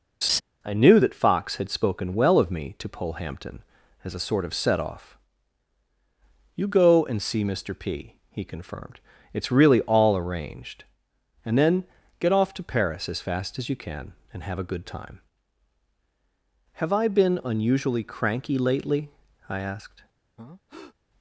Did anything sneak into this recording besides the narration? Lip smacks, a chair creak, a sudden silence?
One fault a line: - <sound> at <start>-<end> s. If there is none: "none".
- laugh at 0.2-0.4 s
- breath at 20.4-21.0 s